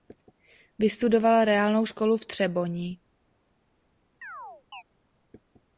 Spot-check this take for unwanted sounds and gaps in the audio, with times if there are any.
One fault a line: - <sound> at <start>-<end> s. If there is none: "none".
- chirp at 4.2-4.8 s